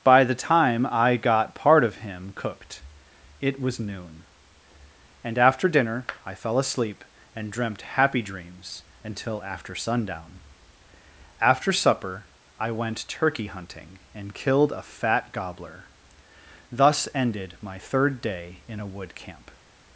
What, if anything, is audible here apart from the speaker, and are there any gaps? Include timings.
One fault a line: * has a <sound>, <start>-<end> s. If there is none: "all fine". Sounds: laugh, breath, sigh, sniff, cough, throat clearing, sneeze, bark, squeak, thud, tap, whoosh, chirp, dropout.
all fine